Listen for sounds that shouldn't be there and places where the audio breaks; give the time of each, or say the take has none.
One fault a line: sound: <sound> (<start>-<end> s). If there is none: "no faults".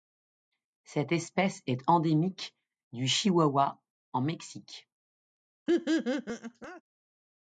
sound: laugh (5.7-6.8 s)